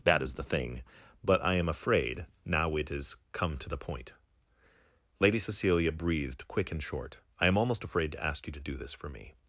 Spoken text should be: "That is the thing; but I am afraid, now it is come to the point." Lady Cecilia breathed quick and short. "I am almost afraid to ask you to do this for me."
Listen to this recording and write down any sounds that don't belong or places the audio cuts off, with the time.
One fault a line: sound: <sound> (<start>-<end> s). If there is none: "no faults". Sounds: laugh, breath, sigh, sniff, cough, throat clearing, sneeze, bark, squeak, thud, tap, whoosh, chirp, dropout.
no faults